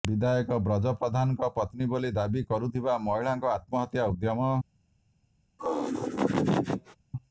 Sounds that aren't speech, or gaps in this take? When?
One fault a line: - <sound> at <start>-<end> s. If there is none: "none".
- laugh at 5.6-7.0 s